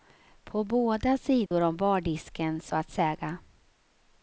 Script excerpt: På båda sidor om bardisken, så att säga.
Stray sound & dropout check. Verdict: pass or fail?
fail